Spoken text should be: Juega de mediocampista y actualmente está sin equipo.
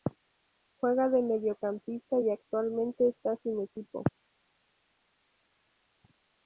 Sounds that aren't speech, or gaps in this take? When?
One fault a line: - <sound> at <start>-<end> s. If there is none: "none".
none